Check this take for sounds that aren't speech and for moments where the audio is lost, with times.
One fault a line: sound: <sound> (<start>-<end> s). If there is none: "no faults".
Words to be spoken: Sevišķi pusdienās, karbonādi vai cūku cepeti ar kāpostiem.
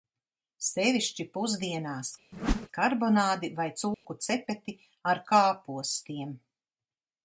sound: whoosh (2.3-2.7 s)
sound: dropout (3.9-4.1 s)